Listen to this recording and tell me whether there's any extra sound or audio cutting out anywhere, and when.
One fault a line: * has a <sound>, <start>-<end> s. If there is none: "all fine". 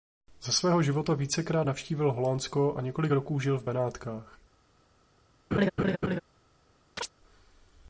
* has a laugh, 5.5-6.2 s
* has a chirp, 7.0-7.1 s